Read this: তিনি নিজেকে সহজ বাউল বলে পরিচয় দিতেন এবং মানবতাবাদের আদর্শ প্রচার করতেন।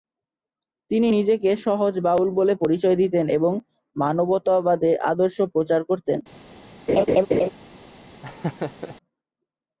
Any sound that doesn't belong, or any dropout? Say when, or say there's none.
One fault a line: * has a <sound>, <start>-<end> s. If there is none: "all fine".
* has a laugh, 6.9-7.5 s
* has a laugh, 8.2-9.0 s